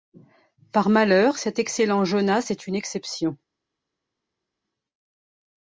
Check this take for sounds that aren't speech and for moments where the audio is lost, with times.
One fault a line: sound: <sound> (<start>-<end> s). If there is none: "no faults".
no faults